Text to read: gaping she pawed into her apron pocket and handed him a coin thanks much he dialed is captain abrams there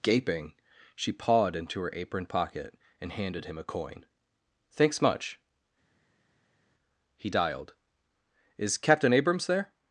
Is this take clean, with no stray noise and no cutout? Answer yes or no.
yes